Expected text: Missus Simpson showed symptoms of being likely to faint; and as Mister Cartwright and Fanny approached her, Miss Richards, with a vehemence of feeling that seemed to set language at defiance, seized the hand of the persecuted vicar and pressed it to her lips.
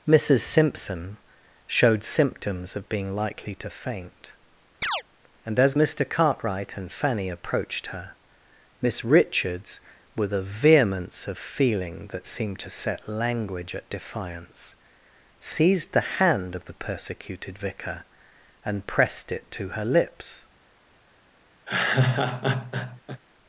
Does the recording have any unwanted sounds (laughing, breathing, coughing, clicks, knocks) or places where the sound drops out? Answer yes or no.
yes